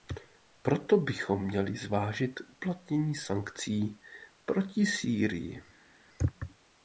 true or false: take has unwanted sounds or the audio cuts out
false